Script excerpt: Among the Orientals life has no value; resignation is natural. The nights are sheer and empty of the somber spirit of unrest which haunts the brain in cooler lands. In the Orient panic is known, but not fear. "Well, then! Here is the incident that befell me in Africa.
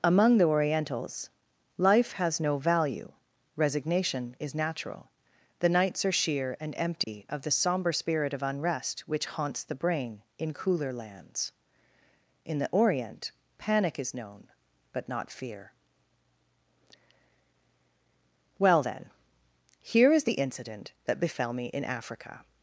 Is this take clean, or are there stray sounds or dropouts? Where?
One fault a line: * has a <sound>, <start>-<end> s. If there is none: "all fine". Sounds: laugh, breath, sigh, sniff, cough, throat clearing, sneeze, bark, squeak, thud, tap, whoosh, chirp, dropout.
* has a dropout, 7.0-7.1 s